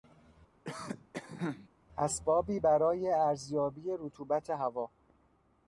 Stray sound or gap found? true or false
true